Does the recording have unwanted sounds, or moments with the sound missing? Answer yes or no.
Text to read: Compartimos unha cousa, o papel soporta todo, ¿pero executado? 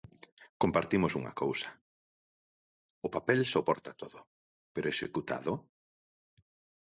no